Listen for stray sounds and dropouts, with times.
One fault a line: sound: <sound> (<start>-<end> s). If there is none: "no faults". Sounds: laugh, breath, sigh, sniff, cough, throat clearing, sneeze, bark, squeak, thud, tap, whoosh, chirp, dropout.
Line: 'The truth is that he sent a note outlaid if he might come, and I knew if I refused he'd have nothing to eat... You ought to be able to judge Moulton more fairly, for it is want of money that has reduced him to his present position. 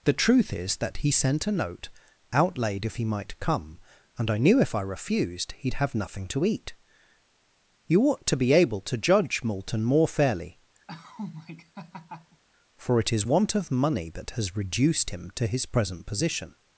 sound: laugh (10.9-12.4 s)